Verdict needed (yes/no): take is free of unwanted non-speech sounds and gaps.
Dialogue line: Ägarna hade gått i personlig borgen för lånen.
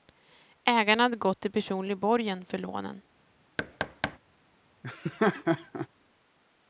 no